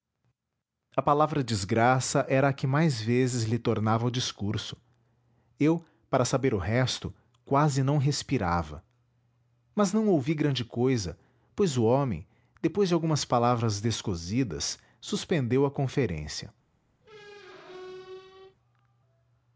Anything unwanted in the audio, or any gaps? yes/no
yes